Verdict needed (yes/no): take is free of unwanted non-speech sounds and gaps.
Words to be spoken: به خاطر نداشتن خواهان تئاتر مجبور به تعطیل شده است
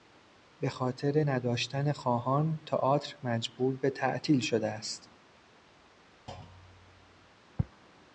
no